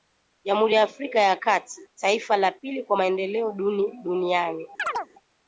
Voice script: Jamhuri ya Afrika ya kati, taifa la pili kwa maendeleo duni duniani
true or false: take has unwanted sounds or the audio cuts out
true